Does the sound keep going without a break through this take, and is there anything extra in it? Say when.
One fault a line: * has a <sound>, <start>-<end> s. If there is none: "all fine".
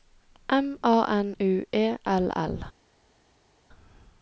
all fine